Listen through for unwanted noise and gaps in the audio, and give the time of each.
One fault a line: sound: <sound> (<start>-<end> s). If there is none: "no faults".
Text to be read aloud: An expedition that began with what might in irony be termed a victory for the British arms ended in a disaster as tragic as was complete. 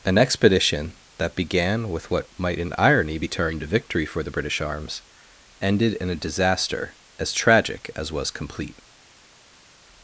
no faults